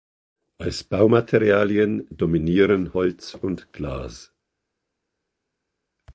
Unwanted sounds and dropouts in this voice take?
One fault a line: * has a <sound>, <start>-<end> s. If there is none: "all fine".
all fine